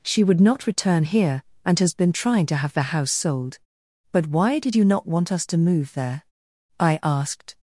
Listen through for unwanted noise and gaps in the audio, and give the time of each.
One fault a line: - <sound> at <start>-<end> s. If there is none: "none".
none